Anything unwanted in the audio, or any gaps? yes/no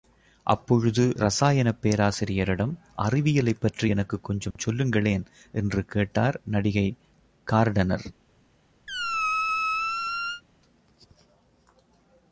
yes